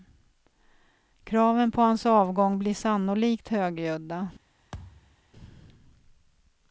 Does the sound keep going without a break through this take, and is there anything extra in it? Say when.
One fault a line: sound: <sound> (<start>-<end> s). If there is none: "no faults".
sound: thud (4.7-5.2 s)